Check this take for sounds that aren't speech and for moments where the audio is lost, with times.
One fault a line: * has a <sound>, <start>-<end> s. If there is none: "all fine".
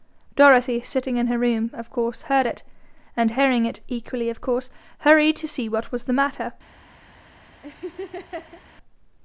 * has a laugh, 7.6-8.6 s